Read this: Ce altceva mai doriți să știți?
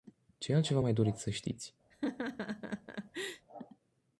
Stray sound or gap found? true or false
true